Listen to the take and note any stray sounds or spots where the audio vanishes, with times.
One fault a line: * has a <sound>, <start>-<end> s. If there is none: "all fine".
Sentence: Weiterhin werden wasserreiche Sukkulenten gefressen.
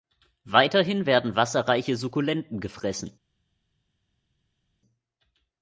all fine